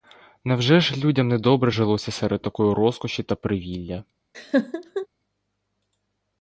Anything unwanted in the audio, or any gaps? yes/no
yes